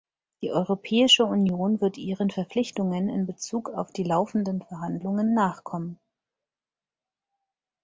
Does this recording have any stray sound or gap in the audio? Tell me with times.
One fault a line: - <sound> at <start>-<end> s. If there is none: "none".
none